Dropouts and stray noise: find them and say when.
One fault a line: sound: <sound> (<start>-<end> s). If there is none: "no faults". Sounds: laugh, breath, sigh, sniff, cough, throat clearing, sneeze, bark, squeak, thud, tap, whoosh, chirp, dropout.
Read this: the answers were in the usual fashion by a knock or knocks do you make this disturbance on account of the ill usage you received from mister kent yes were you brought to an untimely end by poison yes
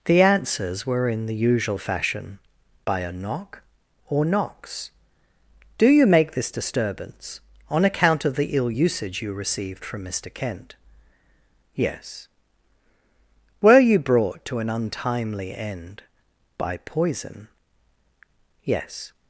no faults